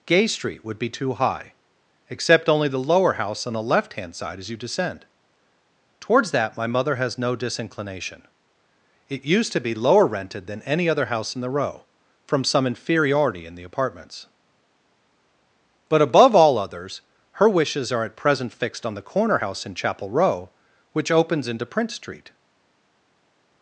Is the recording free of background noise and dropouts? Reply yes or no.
yes